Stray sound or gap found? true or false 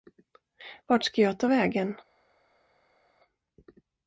false